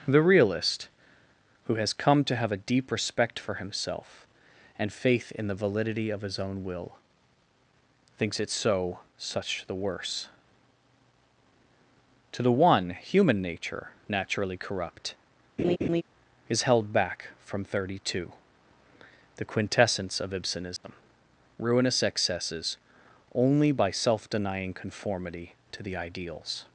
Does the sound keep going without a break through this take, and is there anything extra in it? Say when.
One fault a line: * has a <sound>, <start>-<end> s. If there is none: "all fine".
* has a laugh, 15.6-16.0 s
* has a dropout, 20.8-20.8 s